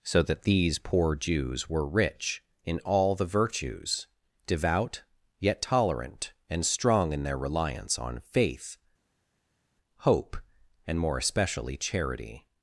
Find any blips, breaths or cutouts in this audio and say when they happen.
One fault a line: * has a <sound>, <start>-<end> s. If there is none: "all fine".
all fine